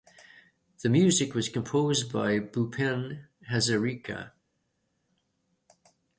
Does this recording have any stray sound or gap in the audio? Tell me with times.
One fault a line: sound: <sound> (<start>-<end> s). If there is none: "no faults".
no faults